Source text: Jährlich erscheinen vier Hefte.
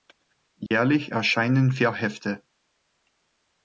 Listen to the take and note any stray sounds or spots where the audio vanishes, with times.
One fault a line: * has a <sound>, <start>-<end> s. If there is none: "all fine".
* has a dropout, 0.7-0.7 s